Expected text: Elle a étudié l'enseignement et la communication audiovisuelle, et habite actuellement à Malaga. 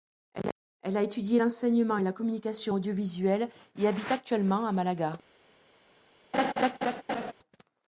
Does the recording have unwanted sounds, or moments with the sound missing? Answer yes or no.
yes